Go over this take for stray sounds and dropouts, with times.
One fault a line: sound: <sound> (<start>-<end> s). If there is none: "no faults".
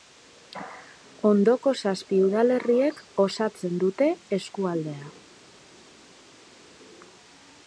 no faults